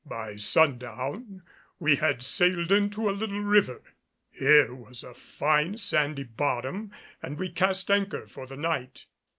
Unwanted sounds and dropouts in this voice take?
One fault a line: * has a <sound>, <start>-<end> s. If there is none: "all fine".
all fine